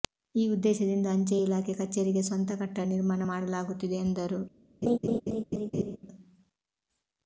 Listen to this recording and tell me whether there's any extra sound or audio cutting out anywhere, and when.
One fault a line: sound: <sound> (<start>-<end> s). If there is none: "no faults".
sound: laugh (4.8-6.0 s)